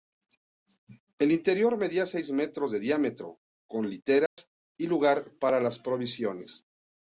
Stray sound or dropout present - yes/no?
yes